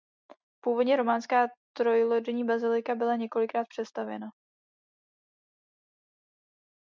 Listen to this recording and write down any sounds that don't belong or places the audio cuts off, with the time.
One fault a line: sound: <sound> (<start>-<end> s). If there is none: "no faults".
no faults